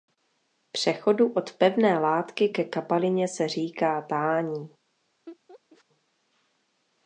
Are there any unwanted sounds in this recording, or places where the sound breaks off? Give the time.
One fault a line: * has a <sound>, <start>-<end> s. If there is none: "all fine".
* has a laugh, 5.3-5.8 s